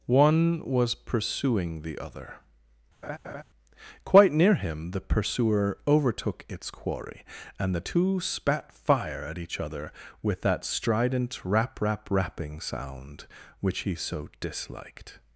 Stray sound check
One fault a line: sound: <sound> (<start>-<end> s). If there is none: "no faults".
sound: laugh (3.0-3.4 s)